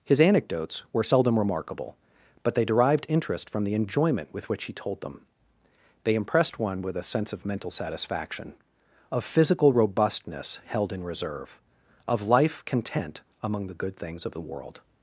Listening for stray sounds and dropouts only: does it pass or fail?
pass